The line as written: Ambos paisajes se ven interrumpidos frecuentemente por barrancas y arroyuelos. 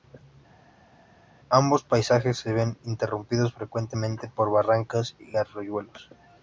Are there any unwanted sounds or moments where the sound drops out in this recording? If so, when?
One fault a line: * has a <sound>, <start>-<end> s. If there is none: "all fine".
all fine